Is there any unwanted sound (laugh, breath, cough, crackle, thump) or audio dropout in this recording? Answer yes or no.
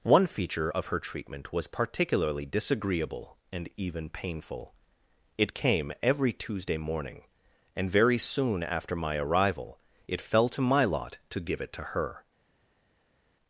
no